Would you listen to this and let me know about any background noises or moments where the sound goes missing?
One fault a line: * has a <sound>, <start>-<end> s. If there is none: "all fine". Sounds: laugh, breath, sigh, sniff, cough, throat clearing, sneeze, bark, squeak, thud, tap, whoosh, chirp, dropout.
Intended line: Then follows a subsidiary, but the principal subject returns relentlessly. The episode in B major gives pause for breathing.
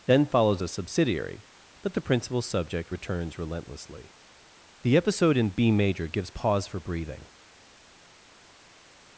all fine